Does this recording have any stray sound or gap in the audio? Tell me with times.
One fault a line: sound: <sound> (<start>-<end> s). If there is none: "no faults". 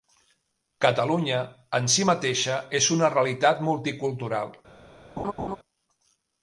sound: laugh (5.2-5.6 s)